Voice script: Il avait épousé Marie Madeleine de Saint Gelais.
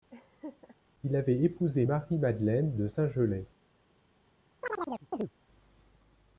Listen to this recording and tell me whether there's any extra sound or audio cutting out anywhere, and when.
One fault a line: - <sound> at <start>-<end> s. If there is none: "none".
- laugh at 0.1-0.8 s
- chirp at 4.6-5.3 s